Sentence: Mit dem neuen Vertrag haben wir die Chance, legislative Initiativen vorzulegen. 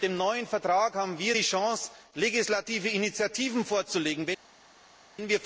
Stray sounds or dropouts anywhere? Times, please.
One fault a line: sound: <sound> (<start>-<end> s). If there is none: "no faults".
no faults